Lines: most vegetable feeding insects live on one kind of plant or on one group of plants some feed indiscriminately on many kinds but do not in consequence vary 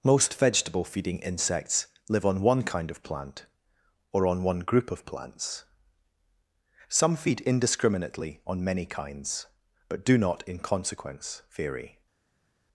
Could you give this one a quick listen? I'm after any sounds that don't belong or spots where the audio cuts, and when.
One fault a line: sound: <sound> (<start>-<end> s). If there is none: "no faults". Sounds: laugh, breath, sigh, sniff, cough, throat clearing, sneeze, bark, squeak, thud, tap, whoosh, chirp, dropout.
no faults